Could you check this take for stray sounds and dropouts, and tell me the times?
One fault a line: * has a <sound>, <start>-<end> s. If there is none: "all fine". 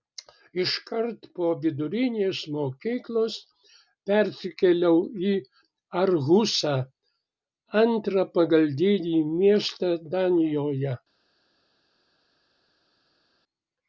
all fine